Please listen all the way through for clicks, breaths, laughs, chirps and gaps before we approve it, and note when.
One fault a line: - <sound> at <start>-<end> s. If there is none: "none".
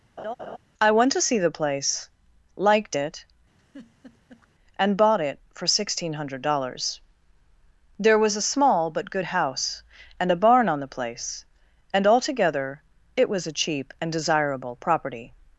- laugh at 0.2-0.6 s
- laugh at 3.6-4.5 s